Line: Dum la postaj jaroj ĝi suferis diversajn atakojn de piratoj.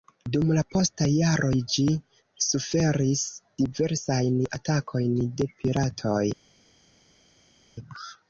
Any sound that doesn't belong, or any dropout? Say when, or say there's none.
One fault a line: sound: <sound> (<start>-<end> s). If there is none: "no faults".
no faults